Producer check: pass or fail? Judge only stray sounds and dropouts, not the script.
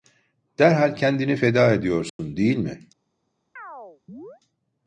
fail